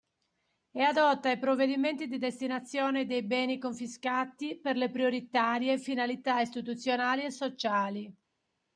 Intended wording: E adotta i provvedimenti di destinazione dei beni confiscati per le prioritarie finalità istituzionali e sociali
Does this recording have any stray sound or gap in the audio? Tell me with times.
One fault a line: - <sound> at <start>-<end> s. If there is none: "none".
none